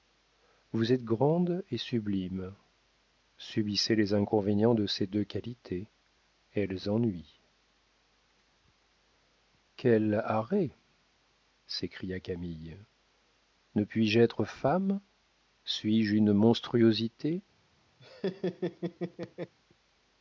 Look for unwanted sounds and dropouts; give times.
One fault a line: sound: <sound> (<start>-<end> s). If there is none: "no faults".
sound: laugh (18.0-19.5 s)